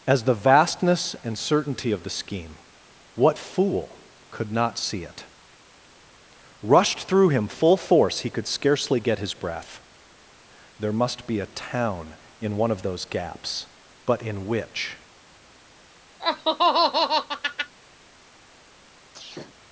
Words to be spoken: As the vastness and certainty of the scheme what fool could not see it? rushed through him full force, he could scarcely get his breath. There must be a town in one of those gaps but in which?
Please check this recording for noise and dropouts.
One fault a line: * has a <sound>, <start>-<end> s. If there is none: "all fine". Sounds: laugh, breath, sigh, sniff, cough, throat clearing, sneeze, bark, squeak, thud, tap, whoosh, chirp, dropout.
* has a laugh, 16.2-17.7 s
* has a sneeze, 19.1-19.6 s